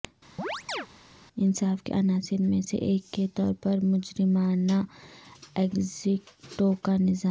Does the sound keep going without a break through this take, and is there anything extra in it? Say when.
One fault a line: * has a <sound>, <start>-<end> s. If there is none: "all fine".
* has a chirp, 0.4-0.9 s